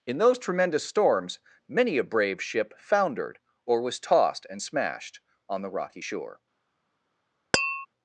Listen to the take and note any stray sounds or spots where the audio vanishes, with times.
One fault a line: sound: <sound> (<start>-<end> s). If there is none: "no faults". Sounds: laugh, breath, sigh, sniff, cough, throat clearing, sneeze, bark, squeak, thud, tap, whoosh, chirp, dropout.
sound: tap (7.5-7.9 s)